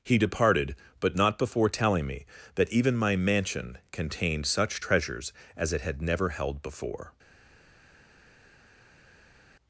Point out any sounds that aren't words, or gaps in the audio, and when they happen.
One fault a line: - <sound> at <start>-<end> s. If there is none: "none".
none